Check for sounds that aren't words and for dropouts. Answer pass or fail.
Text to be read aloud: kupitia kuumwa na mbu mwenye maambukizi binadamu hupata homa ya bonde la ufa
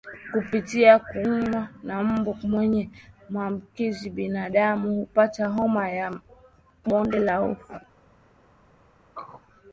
fail